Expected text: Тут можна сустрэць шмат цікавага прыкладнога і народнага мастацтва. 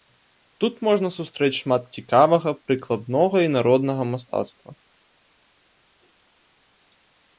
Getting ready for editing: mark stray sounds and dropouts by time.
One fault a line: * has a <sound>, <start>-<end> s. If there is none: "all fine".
all fine